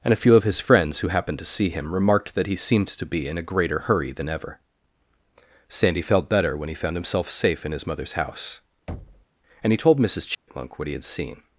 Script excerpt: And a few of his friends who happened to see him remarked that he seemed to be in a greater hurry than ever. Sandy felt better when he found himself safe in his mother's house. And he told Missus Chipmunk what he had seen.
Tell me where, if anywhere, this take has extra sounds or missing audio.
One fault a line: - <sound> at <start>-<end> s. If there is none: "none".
- thud at 8.9-9.3 s
- dropout at 10.3-10.5 s